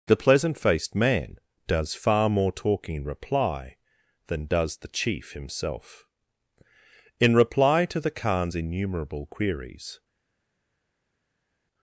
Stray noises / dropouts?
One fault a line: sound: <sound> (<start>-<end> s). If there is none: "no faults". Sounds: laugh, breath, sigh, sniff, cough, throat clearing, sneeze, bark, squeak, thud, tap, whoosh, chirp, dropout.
no faults